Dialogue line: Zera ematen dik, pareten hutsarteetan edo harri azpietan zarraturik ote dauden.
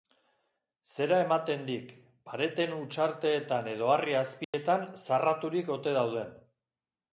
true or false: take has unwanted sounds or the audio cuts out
true